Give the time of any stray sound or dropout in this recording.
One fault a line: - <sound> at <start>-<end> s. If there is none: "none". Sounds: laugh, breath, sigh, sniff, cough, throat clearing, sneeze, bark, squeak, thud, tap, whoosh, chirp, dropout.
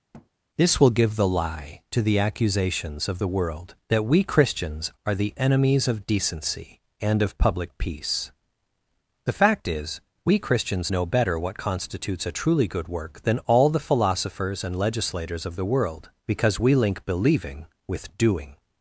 - thud at 0.1-0.3 s